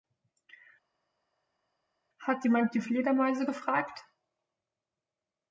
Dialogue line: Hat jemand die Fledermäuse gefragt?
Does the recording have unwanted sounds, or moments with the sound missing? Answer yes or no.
no